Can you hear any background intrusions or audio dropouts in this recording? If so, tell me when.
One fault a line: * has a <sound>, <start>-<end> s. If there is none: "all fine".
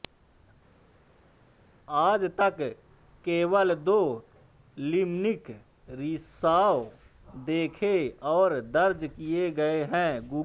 all fine